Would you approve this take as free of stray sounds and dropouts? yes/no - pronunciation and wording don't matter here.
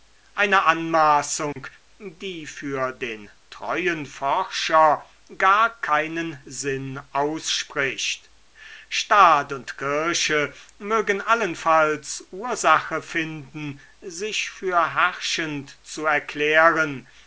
no